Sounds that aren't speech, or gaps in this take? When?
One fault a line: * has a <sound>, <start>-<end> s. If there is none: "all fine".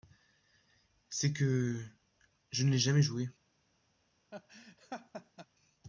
* has a laugh, 4.3-5.5 s